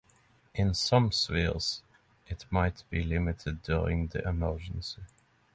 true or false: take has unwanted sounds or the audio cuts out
false